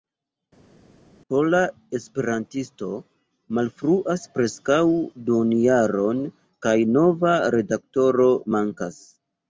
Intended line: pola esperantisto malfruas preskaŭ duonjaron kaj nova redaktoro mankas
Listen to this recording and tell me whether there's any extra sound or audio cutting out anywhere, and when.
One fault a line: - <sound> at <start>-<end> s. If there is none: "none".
none